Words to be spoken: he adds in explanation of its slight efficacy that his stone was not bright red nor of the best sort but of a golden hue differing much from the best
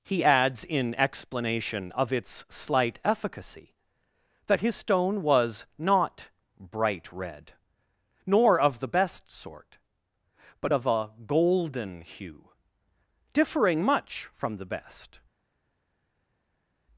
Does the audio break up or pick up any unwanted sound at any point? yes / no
no